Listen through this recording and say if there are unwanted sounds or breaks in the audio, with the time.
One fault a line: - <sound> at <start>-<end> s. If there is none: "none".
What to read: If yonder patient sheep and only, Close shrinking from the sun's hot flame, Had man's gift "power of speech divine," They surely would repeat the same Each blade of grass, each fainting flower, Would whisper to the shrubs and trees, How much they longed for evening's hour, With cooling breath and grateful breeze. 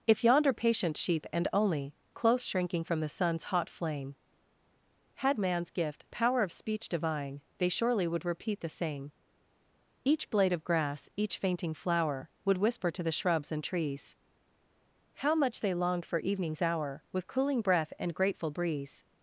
none